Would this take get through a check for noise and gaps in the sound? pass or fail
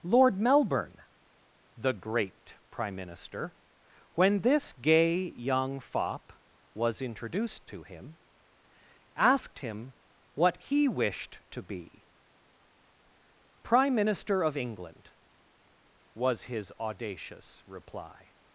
pass